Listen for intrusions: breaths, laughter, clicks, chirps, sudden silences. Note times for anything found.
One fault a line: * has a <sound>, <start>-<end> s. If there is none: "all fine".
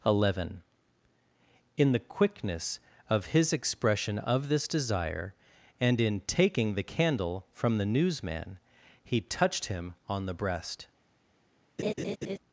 * has a laugh, 11.8-12.4 s